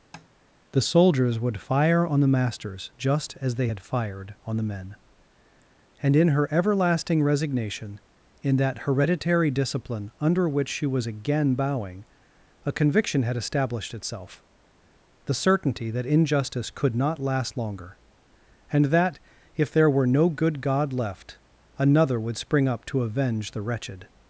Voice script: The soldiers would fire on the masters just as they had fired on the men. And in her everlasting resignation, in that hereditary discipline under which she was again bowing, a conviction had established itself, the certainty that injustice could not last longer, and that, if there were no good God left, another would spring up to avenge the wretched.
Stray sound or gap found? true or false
true